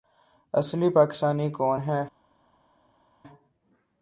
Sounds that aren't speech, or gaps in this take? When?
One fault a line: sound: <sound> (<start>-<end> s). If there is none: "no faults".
no faults